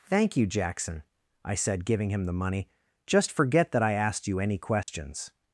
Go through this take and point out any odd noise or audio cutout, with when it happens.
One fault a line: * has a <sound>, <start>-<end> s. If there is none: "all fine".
* has a dropout, 4.8-4.9 s